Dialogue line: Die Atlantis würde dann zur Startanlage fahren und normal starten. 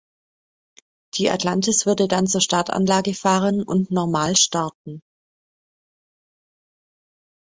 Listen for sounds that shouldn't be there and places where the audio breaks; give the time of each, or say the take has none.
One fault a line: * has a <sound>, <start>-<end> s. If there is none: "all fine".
all fine